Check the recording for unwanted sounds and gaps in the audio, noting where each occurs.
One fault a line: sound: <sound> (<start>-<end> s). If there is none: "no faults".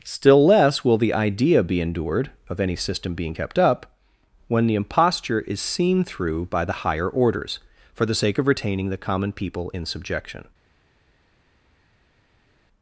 no faults